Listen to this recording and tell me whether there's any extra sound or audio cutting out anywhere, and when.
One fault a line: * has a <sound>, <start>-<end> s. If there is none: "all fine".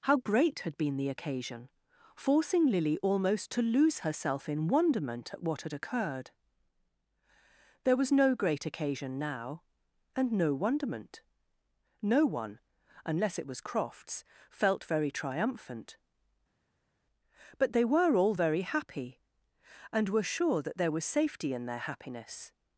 all fine